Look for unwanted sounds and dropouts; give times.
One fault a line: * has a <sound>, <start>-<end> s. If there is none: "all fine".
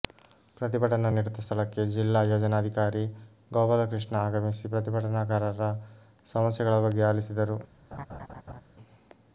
* has a laugh, 7.9-8.6 s